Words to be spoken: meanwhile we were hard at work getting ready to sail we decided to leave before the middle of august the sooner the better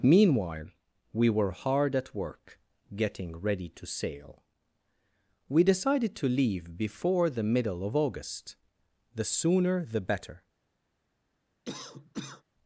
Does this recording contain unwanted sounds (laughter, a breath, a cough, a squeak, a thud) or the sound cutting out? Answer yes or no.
yes